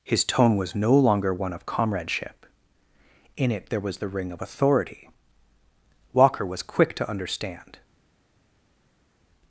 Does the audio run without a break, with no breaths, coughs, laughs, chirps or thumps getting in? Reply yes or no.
yes